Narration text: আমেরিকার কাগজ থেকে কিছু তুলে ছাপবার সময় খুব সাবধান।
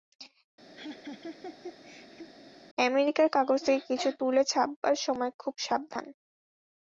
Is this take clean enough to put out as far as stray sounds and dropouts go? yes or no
no